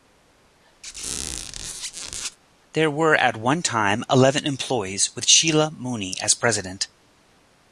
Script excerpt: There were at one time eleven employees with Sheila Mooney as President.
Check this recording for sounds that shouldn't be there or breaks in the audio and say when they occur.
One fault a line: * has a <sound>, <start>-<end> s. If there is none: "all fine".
* has a squeak, 0.8-2.4 s